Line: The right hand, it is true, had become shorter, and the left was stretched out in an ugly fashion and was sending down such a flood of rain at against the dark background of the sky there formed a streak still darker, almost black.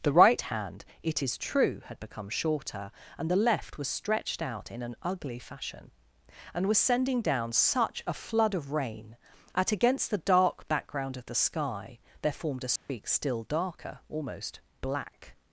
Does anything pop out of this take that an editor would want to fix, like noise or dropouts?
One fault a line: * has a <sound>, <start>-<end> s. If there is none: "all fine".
* has a dropout, 12.8-12.9 s